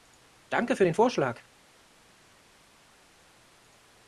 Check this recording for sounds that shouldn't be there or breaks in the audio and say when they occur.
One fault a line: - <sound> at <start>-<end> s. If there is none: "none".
none